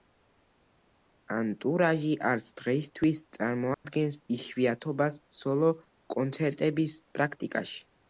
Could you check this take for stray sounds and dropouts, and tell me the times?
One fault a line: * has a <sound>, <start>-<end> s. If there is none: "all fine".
* has a dropout, 3.7-3.8 s